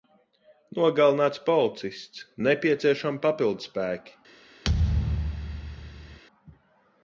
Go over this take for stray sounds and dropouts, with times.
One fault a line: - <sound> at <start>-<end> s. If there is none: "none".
- thud at 4.6-6.2 s